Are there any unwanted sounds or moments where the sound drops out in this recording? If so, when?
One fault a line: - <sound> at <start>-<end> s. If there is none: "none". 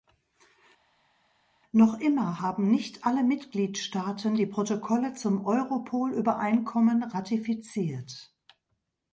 none